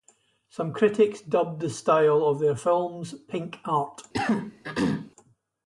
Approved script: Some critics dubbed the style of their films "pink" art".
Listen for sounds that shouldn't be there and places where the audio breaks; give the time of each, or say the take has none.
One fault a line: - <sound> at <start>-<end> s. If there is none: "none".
- throat clearing at 4.1-5.1 s